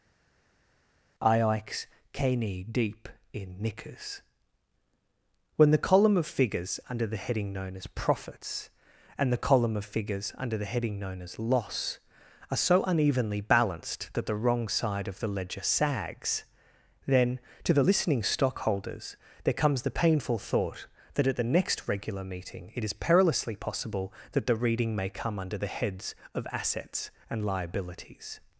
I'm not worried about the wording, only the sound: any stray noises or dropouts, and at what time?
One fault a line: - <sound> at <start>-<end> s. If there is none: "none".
none